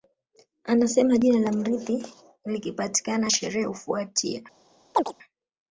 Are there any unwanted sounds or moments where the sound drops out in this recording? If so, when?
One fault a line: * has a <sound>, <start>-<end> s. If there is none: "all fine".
* has a chirp, 4.9-5.1 s